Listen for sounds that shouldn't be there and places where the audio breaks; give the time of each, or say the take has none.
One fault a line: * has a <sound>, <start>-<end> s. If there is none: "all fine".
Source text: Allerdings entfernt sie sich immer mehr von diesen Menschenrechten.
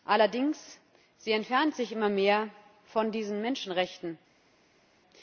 all fine